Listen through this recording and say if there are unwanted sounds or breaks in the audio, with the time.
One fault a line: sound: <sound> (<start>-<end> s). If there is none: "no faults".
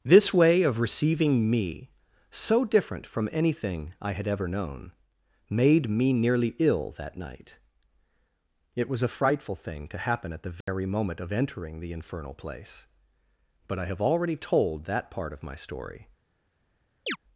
sound: dropout (10.6-10.7 s)
sound: chirp (17.1-17.2 s)